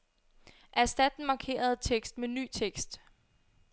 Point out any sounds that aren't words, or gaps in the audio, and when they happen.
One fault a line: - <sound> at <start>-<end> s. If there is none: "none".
none